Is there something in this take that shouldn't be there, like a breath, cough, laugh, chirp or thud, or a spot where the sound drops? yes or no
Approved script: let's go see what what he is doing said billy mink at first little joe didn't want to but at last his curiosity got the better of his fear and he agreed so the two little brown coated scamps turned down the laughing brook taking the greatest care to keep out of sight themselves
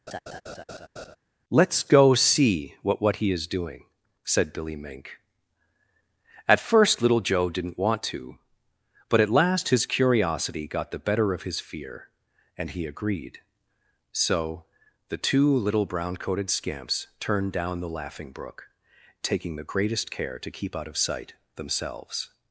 yes